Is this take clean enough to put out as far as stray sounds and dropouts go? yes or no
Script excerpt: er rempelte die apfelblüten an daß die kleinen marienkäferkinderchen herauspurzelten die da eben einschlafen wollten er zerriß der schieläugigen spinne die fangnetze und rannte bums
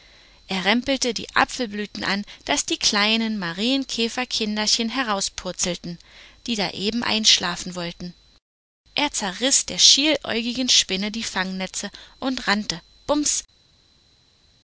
yes